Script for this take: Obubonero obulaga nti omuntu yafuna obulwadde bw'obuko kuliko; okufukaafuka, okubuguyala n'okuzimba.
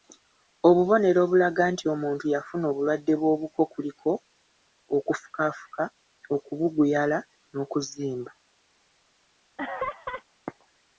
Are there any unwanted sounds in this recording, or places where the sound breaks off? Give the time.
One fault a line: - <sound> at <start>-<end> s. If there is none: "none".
- laugh at 9.6-10.2 s